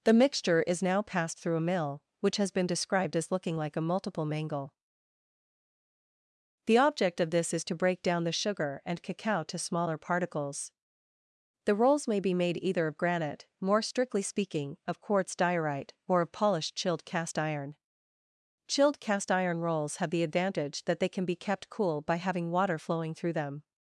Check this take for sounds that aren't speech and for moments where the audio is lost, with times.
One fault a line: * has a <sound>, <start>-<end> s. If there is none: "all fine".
all fine